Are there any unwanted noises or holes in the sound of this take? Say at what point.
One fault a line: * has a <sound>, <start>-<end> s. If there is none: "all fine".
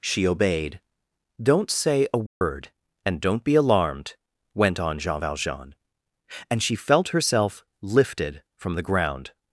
* has a dropout, 2.3-2.4 s